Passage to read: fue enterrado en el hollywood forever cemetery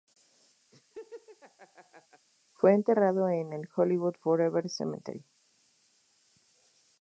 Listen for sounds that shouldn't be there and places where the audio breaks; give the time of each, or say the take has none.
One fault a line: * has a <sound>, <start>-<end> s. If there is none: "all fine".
* has a laugh, 0.7-2.3 s